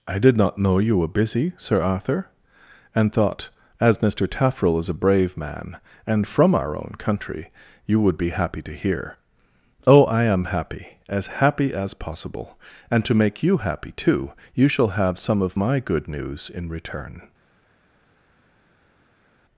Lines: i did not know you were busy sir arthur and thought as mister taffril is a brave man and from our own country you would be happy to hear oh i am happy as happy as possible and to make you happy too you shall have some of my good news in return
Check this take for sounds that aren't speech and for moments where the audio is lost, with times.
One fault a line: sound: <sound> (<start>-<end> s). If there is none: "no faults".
no faults